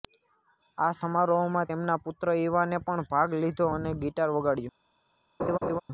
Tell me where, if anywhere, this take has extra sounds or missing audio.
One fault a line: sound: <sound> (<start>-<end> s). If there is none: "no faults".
sound: laugh (5.4-5.8 s)